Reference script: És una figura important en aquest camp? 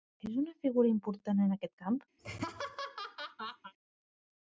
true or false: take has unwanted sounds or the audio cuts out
true